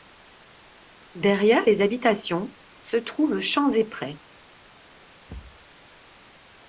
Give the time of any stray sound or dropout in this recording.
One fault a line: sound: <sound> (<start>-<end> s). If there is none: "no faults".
sound: thud (5.3-5.7 s)